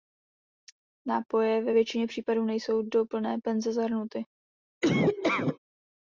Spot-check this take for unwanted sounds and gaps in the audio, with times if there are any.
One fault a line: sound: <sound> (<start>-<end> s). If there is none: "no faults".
sound: laugh (4.8-5.6 s)